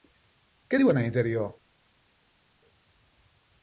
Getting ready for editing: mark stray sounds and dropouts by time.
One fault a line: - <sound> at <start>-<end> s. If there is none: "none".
none